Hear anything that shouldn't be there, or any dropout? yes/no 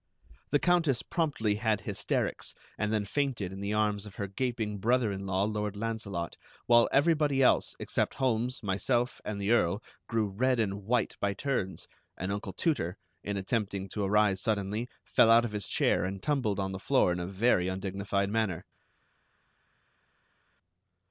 no